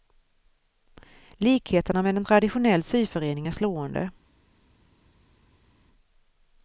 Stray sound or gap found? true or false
false